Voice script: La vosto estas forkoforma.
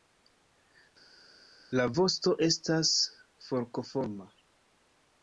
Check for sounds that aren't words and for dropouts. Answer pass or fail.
pass